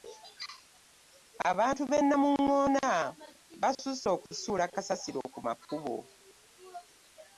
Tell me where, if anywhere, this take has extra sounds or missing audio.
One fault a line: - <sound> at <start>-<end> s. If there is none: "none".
none